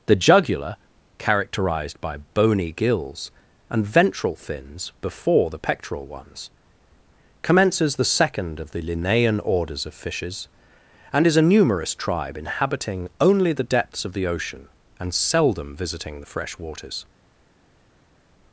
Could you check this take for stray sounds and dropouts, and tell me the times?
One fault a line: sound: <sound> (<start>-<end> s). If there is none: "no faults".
no faults